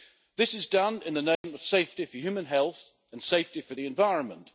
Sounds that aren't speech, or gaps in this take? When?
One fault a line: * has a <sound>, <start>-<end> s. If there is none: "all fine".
* has a dropout, 1.4-1.4 s